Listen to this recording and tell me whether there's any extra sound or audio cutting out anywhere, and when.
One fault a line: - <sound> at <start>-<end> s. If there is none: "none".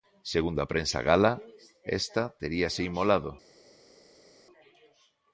none